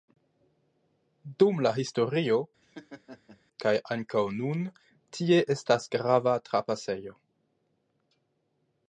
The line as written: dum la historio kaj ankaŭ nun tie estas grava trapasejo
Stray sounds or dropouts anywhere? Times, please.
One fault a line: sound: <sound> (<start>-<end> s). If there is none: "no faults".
sound: laugh (2.6-3.4 s)